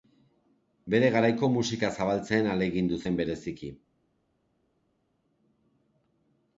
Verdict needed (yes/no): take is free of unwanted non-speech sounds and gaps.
yes